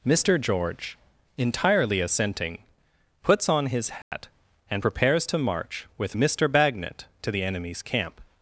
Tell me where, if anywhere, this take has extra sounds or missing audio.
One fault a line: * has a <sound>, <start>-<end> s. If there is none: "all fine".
* has a dropout, 4.0-4.1 s